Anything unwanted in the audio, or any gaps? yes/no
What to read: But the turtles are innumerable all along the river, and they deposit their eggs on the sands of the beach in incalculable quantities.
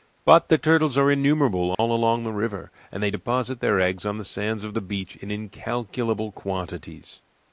yes